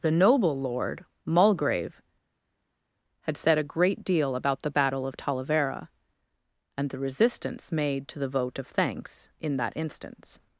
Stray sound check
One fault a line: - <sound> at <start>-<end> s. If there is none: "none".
none